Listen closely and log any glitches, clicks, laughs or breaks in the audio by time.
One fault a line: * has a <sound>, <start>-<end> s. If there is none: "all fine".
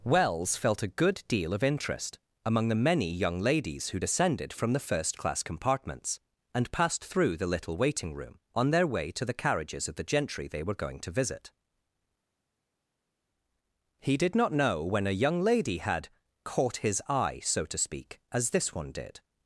all fine